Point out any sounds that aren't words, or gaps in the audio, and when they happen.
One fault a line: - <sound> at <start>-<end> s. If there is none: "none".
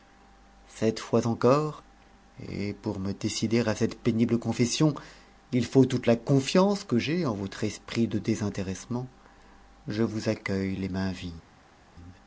none